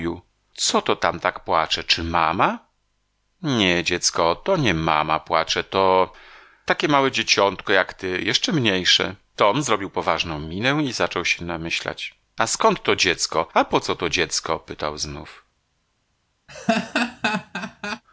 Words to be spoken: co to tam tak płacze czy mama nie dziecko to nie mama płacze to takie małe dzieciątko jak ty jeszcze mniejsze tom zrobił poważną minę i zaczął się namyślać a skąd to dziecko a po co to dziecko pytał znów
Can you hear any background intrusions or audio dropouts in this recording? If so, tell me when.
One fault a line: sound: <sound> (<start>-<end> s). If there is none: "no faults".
sound: laugh (16.5-18.0 s)